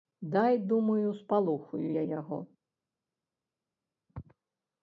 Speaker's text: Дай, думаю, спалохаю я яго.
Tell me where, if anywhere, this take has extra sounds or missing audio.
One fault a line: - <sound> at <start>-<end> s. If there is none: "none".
none